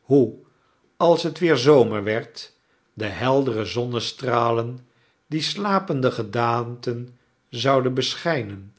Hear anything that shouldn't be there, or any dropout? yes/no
no